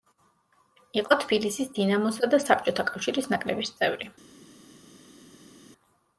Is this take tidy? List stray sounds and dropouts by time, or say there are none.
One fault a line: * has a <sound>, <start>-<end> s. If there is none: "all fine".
all fine